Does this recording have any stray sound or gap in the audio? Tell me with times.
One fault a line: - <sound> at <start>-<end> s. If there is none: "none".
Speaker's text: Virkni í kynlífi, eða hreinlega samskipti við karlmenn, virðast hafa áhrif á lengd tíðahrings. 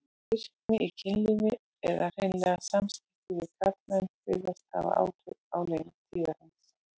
- dropout at 0.6-0.7 s